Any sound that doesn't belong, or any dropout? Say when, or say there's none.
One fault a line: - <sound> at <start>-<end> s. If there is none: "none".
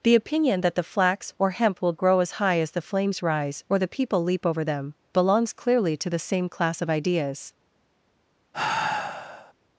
- sigh at 8.5-9.5 s